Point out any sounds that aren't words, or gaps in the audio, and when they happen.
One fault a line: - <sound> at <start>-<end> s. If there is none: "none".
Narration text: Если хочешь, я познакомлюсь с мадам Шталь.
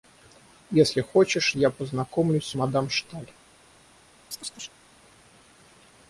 - chirp at 4.3-4.8 s